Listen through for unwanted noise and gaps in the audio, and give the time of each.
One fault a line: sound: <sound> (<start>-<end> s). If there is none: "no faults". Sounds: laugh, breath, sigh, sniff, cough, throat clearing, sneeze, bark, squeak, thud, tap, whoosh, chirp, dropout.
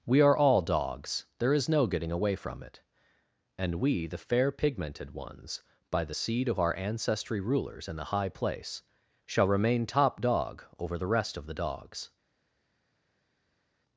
no faults